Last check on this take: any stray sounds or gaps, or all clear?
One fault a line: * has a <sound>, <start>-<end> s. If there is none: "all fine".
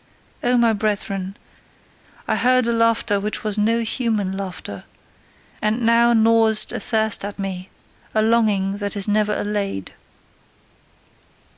all fine